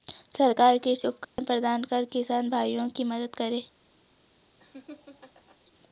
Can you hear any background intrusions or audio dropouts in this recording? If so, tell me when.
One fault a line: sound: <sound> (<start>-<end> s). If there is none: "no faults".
sound: dropout (1.2-1.4 s)
sound: laugh (4.6-5.6 s)